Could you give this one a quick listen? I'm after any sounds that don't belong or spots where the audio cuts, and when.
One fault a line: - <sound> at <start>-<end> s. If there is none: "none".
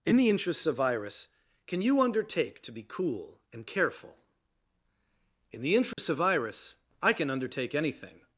- dropout at 5.9-6.0 s